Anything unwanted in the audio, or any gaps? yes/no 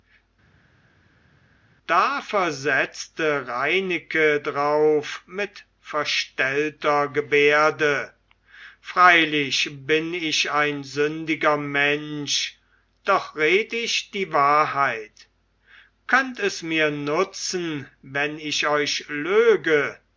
no